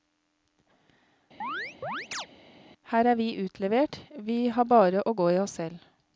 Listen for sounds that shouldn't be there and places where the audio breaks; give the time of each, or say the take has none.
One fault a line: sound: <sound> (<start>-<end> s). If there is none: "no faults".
sound: chirp (1.4-2.3 s)